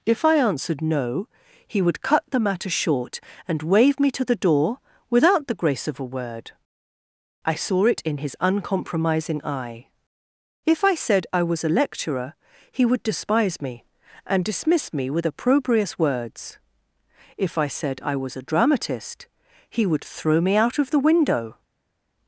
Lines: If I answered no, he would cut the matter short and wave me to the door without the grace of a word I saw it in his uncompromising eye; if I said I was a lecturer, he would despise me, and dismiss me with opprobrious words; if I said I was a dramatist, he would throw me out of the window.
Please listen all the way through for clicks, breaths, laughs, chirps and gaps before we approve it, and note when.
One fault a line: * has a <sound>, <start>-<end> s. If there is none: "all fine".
all fine